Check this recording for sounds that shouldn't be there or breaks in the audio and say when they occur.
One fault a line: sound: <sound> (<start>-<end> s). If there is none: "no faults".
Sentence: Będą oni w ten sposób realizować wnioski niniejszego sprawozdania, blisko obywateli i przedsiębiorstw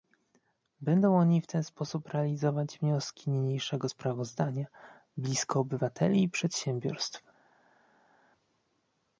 no faults